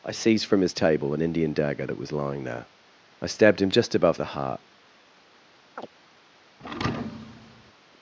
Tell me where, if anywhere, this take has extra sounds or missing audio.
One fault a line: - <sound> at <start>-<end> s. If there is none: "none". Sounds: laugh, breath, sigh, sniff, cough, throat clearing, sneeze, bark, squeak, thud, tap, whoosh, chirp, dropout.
- chirp at 5.8-5.9 s
- thud at 6.6-7.7 s